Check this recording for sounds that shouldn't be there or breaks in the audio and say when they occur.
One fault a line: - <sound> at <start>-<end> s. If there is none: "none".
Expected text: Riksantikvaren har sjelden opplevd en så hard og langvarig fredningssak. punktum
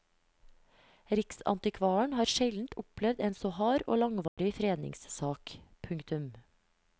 - dropout at 4.3-4.4 s